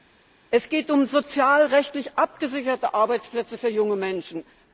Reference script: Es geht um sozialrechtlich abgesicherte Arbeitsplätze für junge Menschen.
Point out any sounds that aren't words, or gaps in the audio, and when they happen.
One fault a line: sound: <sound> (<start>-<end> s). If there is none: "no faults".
no faults